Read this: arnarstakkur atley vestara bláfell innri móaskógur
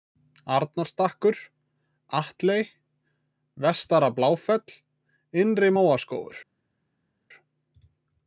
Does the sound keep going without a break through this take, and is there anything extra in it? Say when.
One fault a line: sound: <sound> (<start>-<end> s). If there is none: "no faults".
no faults